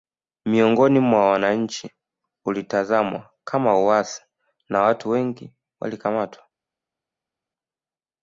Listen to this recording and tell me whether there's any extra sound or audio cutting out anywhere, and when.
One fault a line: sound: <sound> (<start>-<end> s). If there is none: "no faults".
no faults